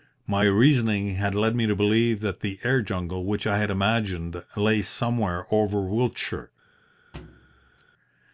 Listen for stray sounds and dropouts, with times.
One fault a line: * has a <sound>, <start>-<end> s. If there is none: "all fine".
* has a thud, 7.1-7.8 s